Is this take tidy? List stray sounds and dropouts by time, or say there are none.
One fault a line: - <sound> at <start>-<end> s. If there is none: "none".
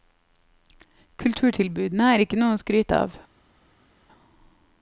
none